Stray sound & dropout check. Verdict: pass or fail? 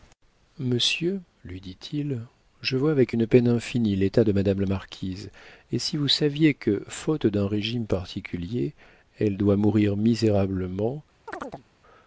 fail